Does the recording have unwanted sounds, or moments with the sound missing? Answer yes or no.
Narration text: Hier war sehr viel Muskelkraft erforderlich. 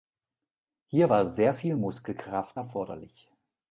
no